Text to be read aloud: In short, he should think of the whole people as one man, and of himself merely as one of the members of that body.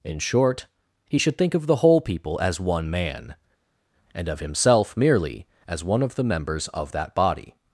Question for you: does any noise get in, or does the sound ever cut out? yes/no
no